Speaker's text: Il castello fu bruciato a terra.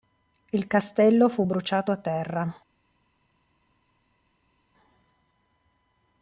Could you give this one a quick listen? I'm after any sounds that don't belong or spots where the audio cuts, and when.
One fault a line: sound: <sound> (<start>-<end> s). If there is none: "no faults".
no faults